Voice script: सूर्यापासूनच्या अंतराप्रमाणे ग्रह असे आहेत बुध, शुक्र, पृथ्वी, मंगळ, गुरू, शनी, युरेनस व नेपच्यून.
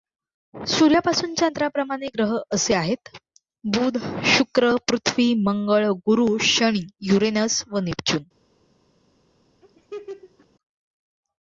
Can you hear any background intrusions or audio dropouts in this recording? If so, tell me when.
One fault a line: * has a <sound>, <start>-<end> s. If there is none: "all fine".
* has a laugh, 9.6-10.5 s